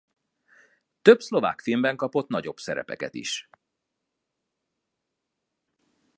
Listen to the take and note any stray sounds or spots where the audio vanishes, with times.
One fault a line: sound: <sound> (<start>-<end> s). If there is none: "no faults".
no faults